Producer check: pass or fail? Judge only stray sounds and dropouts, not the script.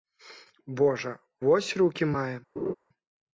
fail